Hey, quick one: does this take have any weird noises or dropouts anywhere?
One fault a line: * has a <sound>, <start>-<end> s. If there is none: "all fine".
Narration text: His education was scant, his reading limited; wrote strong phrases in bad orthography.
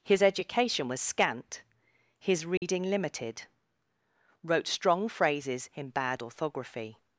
* has a dropout, 2.6-2.6 s